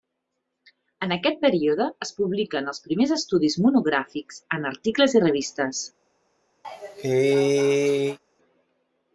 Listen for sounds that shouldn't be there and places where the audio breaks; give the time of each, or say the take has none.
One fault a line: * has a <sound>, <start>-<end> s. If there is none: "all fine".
* has a cough, 6.6-8.2 s